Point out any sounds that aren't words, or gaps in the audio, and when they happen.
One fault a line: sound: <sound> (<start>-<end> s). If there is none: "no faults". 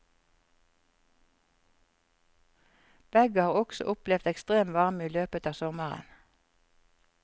no faults